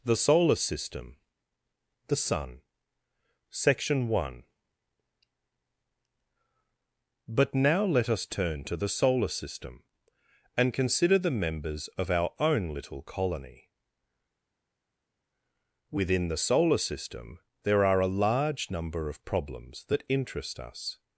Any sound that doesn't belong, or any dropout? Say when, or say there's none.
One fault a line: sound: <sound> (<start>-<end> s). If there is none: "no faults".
no faults